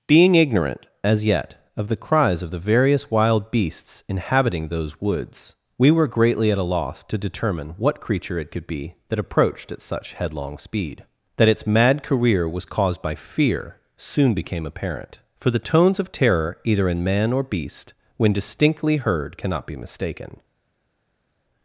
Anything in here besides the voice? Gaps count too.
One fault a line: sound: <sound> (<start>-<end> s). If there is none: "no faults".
no faults